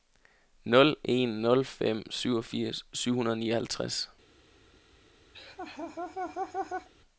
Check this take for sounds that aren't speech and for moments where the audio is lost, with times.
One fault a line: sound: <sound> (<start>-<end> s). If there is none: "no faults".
sound: laugh (5.3-6.9 s)